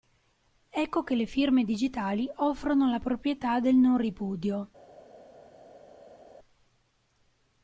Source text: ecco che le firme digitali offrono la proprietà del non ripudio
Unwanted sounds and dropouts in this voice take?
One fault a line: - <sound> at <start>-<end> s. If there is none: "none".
none